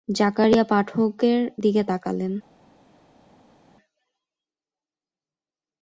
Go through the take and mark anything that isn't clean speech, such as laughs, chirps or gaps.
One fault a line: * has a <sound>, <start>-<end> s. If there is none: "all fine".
all fine